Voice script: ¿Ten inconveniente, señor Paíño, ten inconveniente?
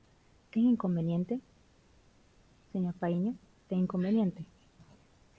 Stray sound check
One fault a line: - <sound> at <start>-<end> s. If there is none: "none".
none